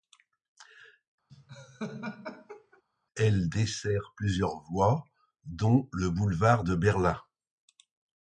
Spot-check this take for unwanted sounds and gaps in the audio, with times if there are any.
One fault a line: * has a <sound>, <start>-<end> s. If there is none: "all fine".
* has a laugh, 1.3-2.8 s